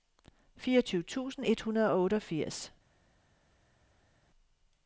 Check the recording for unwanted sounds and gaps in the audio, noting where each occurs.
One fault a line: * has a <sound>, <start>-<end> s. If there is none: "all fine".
all fine